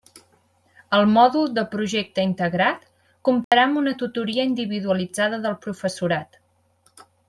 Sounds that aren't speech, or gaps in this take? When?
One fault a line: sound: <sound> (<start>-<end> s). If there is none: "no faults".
sound: dropout (3.4-3.5 s)